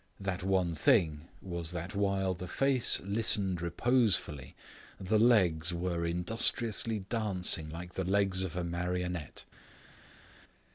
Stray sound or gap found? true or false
false